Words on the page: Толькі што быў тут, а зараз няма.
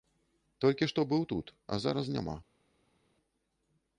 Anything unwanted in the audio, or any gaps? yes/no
no